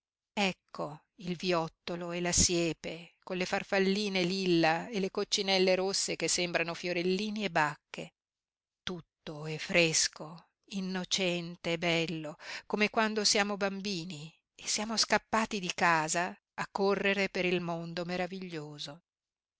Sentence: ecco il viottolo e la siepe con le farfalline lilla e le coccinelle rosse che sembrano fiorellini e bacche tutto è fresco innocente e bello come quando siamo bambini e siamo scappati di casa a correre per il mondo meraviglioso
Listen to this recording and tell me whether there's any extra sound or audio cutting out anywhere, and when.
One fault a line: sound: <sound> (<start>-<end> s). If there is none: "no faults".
no faults